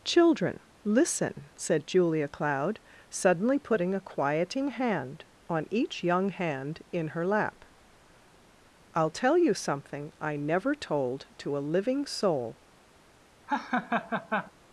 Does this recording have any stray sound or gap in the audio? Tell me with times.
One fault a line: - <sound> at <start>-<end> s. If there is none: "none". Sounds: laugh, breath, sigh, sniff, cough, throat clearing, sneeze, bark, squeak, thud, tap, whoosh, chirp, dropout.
- laugh at 13.5-14.5 s